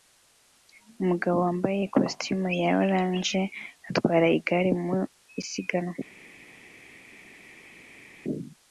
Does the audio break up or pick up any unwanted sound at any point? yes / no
no